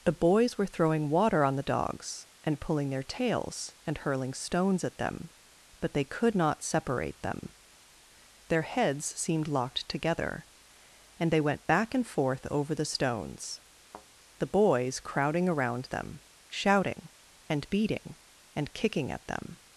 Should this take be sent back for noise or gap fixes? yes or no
yes